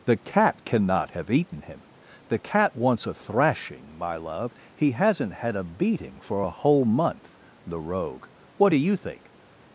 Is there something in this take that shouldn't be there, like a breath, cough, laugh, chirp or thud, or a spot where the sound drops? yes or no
no